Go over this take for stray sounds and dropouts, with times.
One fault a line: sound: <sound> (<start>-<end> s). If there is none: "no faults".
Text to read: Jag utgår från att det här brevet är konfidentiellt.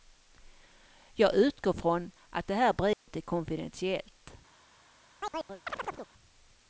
sound: dropout (2.9-3.1 s)
sound: chirp (5.2-6.1 s)